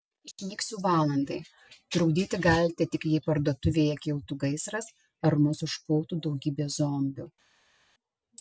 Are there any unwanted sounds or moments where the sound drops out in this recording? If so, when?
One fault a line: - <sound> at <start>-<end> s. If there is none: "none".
none